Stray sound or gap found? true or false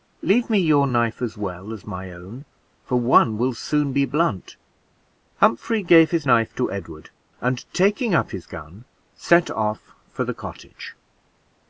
false